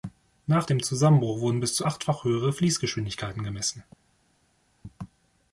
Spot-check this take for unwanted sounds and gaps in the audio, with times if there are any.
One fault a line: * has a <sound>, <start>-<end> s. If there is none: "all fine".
all fine